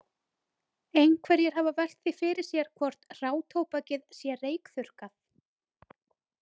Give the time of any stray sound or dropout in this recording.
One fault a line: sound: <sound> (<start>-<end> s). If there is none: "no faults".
no faults